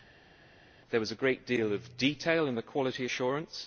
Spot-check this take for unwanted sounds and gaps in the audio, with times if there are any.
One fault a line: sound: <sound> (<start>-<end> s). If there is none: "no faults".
no faults